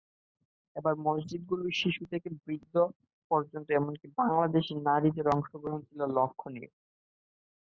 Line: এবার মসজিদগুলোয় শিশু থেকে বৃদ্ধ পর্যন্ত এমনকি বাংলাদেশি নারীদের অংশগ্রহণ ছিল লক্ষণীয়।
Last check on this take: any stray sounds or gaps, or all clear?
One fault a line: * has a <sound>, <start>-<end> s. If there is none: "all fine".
all fine